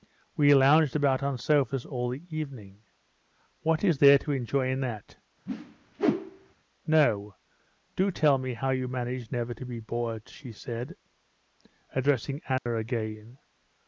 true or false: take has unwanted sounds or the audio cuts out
true